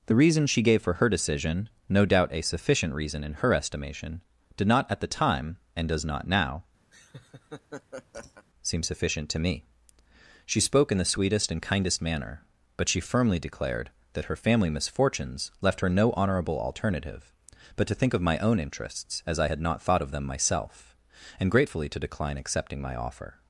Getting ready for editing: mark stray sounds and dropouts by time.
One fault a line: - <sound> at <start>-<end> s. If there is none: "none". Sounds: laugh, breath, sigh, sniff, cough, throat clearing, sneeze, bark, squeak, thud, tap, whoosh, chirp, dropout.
- laugh at 6.9-8.5 s